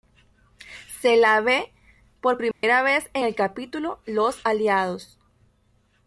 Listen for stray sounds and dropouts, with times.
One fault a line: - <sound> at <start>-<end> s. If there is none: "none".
- dropout at 2.5-2.6 s